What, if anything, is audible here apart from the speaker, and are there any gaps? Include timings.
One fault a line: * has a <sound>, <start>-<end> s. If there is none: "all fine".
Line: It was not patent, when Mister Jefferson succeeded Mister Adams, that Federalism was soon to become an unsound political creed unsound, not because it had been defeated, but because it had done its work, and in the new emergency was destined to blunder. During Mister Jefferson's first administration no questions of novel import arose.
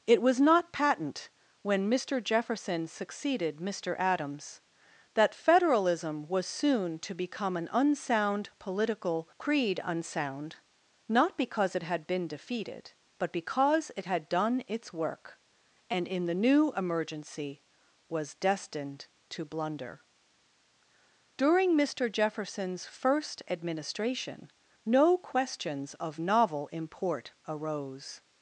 all fine